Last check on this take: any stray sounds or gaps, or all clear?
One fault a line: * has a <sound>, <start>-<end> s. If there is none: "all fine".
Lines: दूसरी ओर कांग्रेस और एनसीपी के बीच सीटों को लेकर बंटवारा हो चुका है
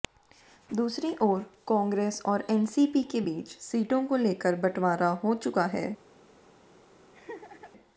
* has a laugh, 7.1-7.7 s